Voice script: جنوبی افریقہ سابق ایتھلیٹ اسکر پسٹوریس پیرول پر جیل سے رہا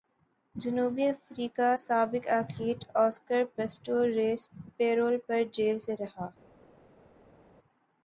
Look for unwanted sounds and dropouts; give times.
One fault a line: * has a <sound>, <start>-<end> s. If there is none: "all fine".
all fine